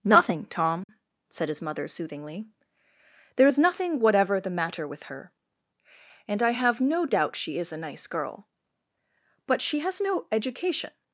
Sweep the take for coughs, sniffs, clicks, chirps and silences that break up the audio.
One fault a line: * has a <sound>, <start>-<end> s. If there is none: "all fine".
* has a dropout, 0.8-0.9 s